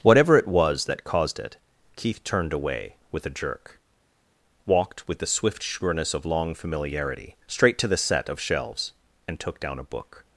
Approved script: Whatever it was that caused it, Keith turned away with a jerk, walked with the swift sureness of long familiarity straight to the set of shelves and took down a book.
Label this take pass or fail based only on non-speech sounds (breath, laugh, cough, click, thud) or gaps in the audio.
pass